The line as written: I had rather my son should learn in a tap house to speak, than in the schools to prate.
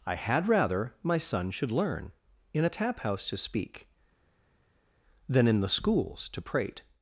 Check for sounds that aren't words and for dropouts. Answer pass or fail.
pass